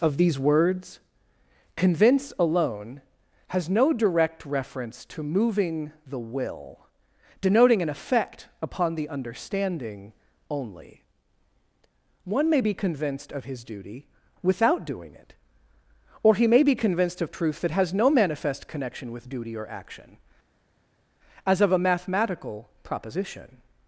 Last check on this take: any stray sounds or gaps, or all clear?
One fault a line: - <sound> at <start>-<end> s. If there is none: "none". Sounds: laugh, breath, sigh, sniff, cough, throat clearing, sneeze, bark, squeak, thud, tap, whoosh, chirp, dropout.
none